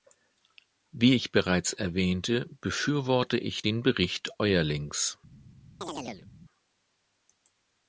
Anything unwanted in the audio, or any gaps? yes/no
yes